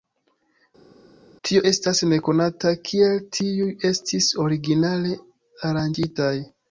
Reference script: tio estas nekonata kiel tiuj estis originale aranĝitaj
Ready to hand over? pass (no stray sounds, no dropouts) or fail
pass